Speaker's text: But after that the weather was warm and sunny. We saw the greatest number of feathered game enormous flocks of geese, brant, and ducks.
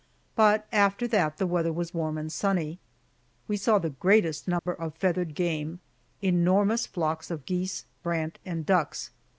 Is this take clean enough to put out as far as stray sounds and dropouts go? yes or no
no